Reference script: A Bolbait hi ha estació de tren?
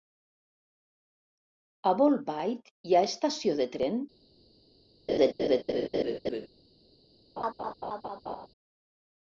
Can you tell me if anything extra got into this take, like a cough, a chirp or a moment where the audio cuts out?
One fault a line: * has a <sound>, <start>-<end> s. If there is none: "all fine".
* has a laugh, 5.1-6.5 s
* has a laugh, 7.4-8.5 s